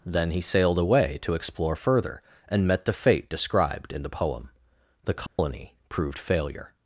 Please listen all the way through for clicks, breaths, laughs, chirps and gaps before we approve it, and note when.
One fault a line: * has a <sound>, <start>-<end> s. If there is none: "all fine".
* has a dropout, 5.3-5.4 s